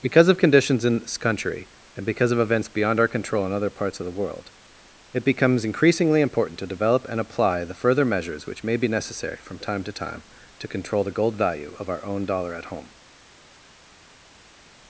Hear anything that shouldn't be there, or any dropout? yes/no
no